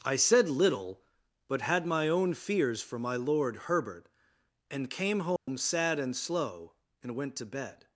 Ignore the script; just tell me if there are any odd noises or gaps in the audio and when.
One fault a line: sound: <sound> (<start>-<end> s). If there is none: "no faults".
sound: dropout (5.4-5.5 s)